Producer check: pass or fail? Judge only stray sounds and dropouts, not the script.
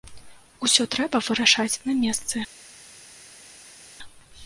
pass